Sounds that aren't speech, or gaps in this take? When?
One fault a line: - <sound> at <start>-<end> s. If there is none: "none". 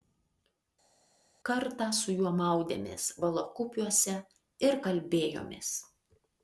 none